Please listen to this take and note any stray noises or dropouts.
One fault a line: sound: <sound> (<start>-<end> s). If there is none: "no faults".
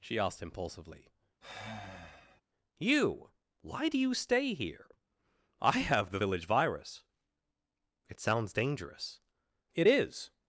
sound: sigh (1.4-2.4 s)